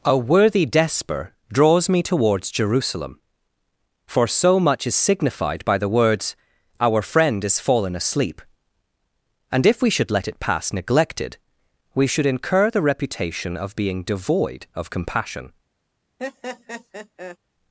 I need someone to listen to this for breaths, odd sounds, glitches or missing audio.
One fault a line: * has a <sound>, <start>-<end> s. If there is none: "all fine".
* has a laugh, 16.2-17.4 s